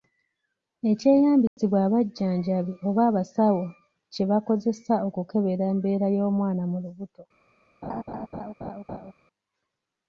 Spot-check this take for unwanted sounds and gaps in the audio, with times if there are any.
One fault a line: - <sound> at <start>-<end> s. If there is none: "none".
- dropout at 1.5-1.6 s
- laugh at 7.8-9.1 s